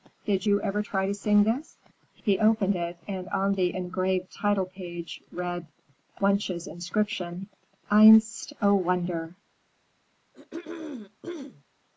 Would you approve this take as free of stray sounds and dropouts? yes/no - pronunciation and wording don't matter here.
no